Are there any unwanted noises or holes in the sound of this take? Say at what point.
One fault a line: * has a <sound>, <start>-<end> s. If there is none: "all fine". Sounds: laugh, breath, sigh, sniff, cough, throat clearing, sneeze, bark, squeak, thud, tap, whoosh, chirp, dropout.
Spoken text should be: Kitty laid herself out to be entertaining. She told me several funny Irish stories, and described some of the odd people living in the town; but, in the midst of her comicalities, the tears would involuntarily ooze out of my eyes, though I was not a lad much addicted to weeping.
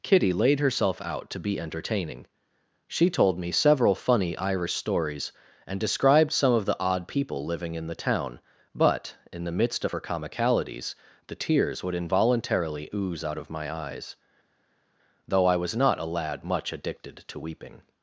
all fine